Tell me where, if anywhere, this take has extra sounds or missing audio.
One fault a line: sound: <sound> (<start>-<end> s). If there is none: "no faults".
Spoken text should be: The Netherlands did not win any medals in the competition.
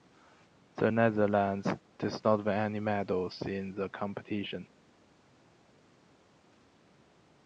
no faults